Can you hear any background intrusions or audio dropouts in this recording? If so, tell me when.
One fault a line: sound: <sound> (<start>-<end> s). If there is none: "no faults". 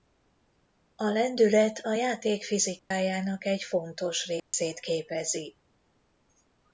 sound: dropout (2.8-2.9 s)
sound: dropout (4.4-4.5 s)